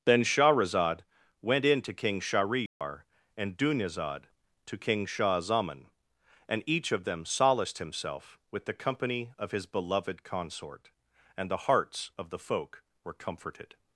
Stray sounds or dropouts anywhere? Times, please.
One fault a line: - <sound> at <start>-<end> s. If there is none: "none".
- dropout at 2.7-2.8 s